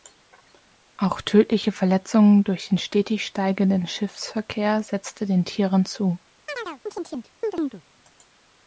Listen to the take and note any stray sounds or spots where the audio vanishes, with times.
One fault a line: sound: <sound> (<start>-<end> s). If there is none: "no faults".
sound: chirp (6.5-7.8 s)